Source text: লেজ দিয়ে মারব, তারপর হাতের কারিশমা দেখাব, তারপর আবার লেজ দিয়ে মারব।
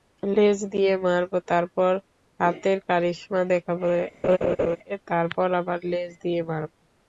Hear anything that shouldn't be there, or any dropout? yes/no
yes